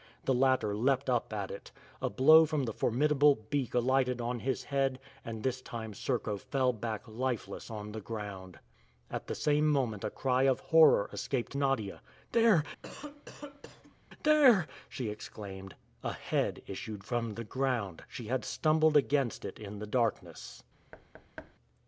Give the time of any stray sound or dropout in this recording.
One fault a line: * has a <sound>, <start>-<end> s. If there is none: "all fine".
* has a cough, 12.8-14.0 s
* has a thud, 20.9-21.6 s